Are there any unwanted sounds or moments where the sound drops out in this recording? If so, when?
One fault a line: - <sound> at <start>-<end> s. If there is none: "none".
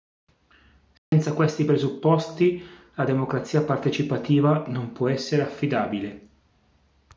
- dropout at 1.0-1.1 s